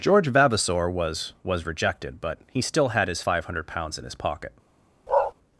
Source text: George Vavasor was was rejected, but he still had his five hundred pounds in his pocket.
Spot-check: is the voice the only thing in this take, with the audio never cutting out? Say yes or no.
no